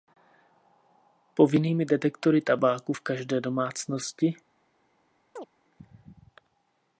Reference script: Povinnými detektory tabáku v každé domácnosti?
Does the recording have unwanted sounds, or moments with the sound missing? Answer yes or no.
yes